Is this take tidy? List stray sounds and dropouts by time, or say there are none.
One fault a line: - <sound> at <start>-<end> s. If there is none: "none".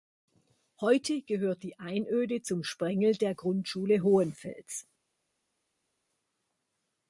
none